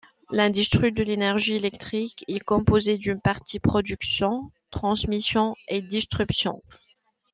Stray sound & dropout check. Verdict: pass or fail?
pass